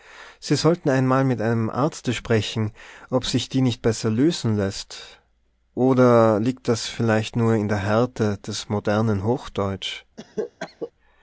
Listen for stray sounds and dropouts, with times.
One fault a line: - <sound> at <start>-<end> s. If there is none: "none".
- cough at 10.2-10.9 s